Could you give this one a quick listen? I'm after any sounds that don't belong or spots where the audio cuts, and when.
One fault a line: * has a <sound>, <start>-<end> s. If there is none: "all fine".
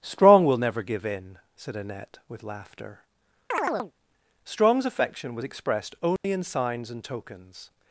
* has a chirp, 3.5-3.9 s
* has a dropout, 6.2-6.2 s